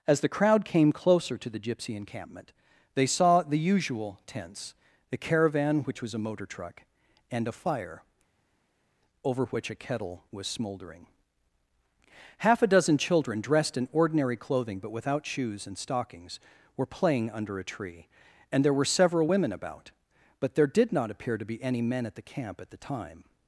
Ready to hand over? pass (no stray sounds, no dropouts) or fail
pass